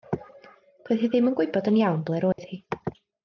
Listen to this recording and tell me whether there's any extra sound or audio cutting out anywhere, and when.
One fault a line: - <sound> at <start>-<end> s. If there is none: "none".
- dropout at 2.3-2.4 s